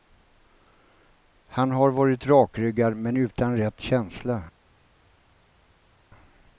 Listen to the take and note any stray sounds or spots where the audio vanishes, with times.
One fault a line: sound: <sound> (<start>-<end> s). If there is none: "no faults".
no faults